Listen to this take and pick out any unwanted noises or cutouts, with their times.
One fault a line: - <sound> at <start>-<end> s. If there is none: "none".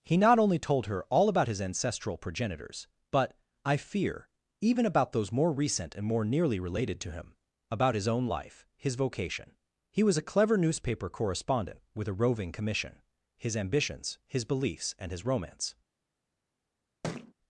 - thud at 17.0-17.3 s